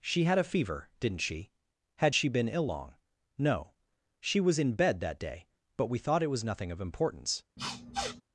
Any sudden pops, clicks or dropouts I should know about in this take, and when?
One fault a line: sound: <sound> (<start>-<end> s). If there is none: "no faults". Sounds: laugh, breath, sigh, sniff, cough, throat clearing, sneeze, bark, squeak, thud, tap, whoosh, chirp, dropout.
sound: sniff (7.6-8.2 s)